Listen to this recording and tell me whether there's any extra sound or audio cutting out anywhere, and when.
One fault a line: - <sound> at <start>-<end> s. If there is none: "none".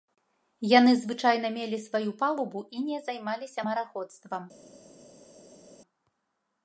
none